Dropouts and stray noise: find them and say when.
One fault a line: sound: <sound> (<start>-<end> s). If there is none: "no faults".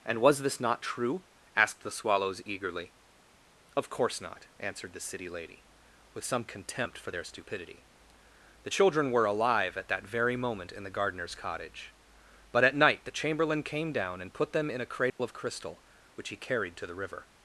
sound: dropout (15.1-15.2 s)